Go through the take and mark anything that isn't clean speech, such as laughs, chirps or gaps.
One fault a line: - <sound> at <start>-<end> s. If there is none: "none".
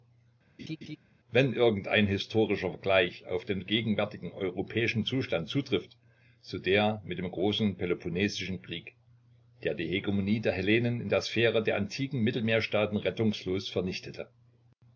- laugh at 0.6-1.0 s